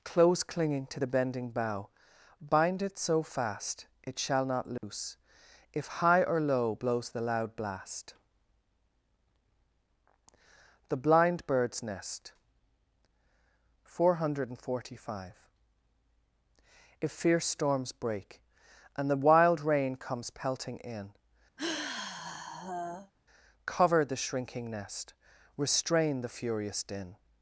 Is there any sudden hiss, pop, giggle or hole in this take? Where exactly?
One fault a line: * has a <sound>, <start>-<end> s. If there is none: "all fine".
* has a dropout, 4.8-4.8 s
* has a sigh, 21.6-23.1 s